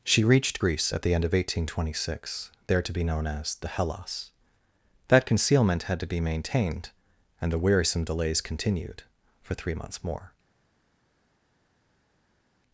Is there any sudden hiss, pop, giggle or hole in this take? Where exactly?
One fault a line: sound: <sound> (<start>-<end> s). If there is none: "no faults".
no faults